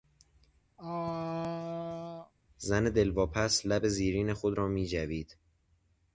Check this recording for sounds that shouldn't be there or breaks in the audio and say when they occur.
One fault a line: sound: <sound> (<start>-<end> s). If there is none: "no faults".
sound: throat clearing (0.8-2.3 s)